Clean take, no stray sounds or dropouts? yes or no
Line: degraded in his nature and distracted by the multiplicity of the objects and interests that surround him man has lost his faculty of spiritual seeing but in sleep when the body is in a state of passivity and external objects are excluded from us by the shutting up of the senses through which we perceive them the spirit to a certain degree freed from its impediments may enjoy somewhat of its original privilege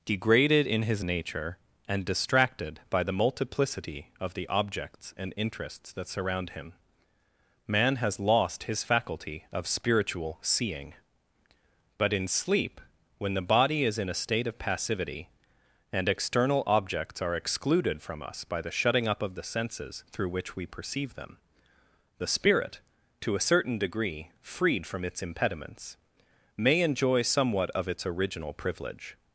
yes